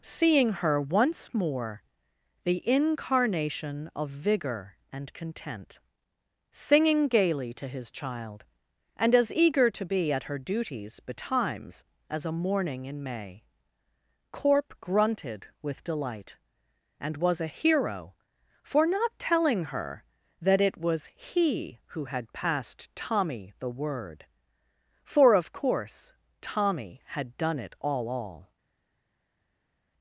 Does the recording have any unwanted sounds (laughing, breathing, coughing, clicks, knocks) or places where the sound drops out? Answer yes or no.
no